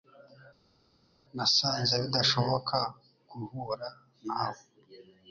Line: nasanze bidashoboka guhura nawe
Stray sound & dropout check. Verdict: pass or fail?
pass